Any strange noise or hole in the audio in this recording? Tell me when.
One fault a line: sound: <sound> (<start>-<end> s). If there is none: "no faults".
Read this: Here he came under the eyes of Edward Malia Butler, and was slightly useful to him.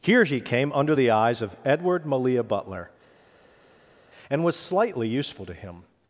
no faults